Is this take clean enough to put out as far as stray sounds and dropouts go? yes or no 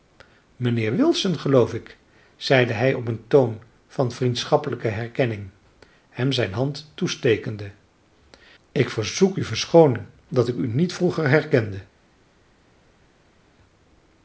yes